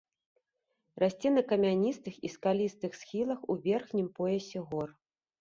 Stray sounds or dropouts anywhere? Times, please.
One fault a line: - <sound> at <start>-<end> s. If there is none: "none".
none